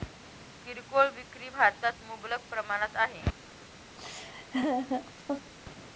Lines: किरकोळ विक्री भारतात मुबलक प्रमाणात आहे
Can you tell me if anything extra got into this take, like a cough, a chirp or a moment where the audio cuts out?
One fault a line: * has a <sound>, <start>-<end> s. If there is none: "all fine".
* has a laugh, 4.0-5.5 s